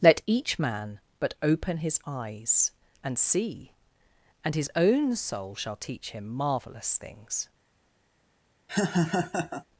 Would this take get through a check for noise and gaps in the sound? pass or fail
fail